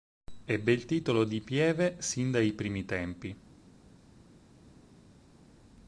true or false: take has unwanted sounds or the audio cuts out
false